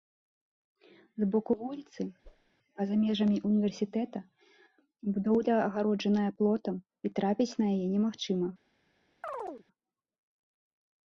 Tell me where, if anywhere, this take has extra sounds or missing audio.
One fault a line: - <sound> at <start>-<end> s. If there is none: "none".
- whoosh at 2.2-2.5 s
- chirp at 9.2-9.6 s